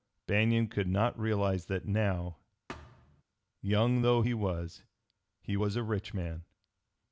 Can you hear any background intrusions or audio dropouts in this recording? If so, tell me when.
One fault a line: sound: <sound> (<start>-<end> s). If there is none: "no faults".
sound: thud (2.7-3.2 s)